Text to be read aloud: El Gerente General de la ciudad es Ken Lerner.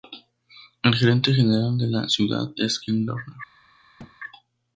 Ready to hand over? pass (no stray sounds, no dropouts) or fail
fail